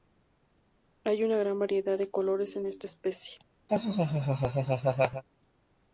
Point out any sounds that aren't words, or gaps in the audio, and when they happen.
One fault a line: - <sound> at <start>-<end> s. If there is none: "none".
- laugh at 3.7-5.2 s